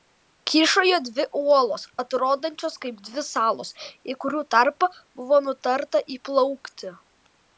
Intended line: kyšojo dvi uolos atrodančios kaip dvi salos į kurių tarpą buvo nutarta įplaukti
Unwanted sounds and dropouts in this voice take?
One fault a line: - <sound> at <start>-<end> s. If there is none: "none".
none